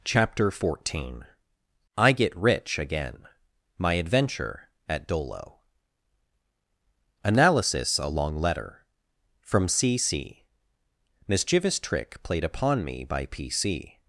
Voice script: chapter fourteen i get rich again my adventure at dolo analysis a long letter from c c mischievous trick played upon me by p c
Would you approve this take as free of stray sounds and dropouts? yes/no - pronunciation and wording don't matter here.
yes